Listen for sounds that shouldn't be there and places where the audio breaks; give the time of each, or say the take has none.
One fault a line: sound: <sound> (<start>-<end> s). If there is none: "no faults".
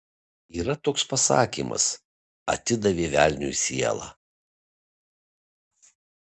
no faults